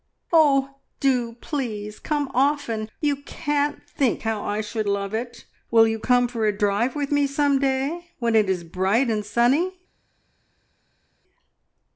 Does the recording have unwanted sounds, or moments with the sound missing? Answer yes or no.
no